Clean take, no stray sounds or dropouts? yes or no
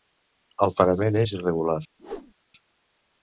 no